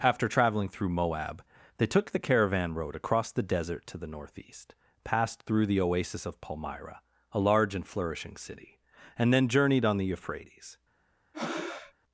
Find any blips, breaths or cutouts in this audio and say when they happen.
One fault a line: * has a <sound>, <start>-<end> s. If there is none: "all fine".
* has a breath, 11.3-11.9 s